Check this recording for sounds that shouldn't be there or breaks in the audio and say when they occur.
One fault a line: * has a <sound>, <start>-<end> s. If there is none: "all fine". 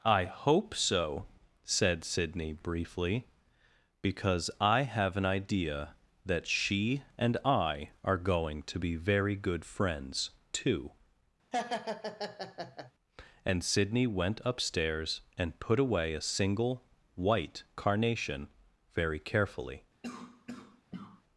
* has a laugh, 11.5-12.9 s
* has a cough, 20.0-21.2 s